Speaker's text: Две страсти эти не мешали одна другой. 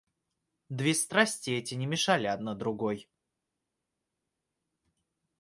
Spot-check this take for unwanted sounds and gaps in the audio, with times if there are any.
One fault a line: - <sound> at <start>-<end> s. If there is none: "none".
none